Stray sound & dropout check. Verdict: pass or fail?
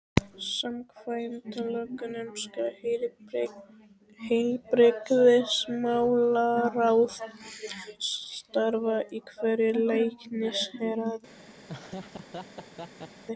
fail